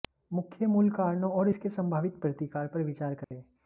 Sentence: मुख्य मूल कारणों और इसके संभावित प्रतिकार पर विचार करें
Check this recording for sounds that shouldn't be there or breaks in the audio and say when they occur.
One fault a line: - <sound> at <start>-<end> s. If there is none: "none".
- dropout at 3.2-3.3 s